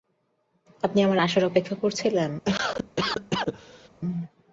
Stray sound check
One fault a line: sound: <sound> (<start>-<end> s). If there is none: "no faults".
sound: cough (2.5-3.9 s)